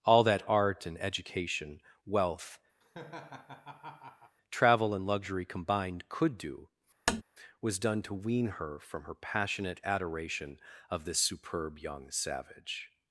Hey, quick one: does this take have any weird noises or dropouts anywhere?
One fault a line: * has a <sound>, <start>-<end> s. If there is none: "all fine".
* has a laugh, 2.8-4.4 s
* has a tap, 7.1-7.2 s